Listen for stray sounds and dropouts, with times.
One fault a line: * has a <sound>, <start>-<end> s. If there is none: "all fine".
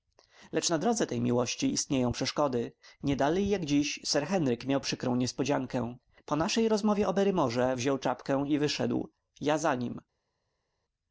all fine